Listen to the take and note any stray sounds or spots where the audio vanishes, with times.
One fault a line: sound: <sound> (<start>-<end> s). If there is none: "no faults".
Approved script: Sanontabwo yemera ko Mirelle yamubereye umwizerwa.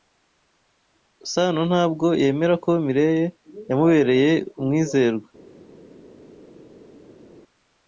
no faults